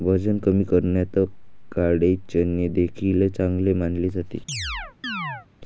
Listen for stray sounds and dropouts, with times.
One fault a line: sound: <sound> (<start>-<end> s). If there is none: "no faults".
sound: chirp (4.5-5.5 s)